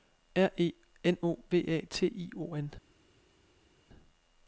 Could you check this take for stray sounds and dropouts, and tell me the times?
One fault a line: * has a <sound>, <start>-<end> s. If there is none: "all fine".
all fine